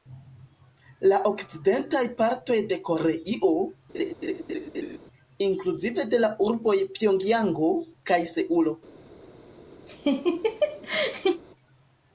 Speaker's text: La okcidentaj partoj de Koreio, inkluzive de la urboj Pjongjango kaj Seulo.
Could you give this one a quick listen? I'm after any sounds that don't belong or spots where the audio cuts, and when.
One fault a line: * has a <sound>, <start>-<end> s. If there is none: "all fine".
* has a laugh, 3.9-5.0 s
* has a laugh, 9.9-11.4 s